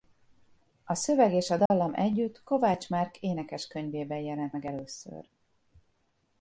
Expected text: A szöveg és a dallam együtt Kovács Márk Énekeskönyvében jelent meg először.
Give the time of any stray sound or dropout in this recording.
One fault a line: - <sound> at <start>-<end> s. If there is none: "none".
- dropout at 1.7-1.7 s